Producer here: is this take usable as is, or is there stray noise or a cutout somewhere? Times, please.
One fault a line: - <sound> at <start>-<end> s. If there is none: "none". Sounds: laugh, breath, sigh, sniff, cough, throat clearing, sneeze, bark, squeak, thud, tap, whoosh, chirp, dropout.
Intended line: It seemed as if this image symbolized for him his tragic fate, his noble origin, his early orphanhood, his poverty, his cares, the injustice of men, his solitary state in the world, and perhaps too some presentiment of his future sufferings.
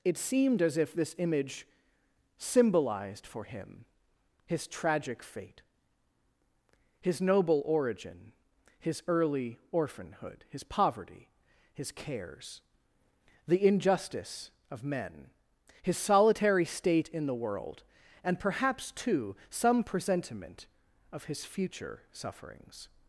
none